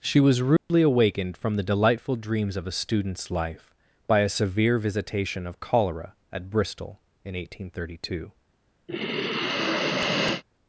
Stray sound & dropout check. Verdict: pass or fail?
fail